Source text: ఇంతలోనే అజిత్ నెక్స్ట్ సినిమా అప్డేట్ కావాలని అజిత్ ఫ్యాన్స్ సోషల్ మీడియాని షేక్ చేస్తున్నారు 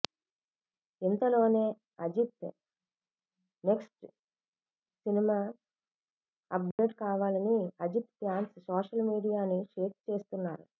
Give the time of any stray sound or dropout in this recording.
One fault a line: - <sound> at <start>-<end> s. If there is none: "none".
- dropout at 6.7-6.8 s